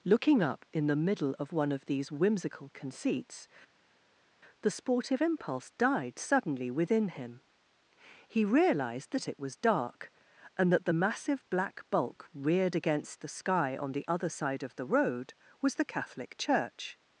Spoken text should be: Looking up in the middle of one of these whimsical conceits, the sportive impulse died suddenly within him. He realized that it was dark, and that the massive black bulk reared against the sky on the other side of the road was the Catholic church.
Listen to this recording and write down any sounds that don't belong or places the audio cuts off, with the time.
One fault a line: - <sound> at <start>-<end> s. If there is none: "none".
none